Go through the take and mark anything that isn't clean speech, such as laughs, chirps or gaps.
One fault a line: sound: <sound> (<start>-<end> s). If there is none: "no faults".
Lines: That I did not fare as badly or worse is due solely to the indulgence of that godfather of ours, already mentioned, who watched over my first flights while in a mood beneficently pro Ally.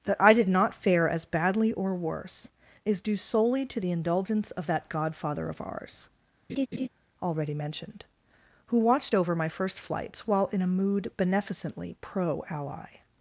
sound: laugh (6.5-6.9 s)